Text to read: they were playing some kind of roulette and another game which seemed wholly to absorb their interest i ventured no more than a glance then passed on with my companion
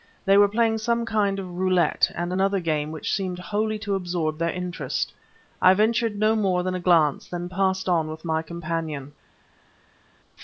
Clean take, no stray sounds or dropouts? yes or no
yes